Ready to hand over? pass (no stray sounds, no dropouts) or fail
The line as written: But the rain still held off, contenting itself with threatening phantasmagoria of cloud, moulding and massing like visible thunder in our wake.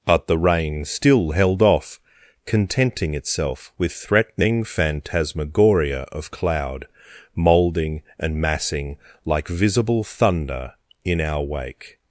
pass